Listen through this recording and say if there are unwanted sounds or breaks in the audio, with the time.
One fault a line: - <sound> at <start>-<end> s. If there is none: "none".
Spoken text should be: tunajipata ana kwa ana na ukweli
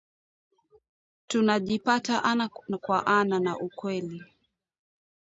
none